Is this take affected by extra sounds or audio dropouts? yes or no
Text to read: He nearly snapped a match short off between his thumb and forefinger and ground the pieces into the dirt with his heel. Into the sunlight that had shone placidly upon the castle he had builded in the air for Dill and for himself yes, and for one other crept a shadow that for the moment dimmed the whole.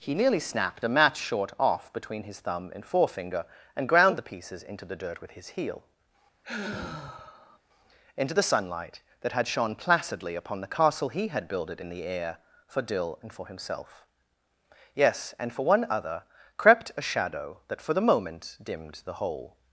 yes